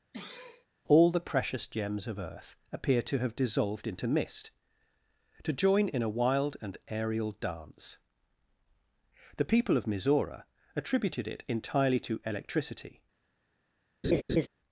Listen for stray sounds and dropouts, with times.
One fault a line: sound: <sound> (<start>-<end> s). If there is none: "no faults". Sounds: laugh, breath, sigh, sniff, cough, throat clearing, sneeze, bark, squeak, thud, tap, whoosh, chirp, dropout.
sound: sneeze (0.1-0.7 s)
sound: laugh (14.0-14.5 s)